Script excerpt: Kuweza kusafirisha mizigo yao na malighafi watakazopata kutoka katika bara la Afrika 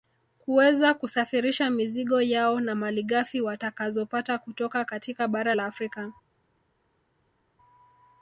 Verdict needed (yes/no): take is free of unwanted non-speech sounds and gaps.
yes